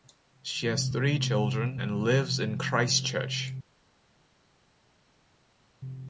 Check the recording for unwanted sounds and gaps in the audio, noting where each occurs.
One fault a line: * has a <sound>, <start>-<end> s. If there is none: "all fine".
all fine